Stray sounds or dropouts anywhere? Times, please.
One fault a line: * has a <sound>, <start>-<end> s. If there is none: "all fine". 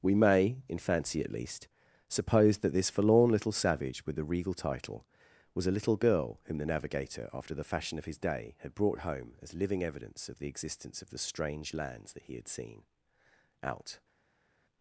all fine